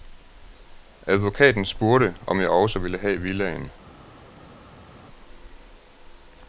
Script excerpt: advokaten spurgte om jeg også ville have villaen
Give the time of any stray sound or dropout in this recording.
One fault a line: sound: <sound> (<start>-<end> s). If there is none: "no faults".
no faults